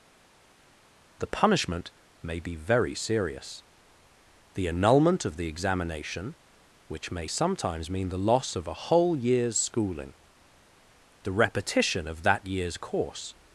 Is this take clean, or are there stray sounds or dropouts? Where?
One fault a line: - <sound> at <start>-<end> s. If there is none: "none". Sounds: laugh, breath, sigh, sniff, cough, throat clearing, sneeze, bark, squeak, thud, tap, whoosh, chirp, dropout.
none